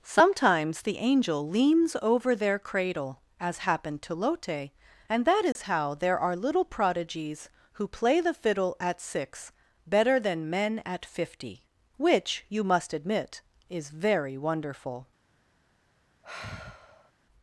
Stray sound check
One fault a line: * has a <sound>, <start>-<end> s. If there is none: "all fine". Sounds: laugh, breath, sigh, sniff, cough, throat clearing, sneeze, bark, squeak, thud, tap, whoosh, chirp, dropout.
* has a dropout, 5.5-5.6 s
* has a sigh, 16.2-17.1 s